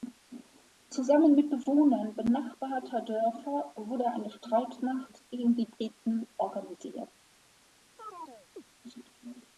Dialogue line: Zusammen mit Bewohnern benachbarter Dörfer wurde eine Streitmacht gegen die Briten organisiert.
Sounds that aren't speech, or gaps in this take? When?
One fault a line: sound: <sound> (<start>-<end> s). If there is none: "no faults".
sound: chirp (8.0-8.6 s)